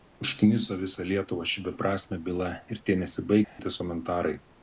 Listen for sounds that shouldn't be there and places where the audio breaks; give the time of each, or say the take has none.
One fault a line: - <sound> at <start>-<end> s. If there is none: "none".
- dropout at 3.4-3.6 s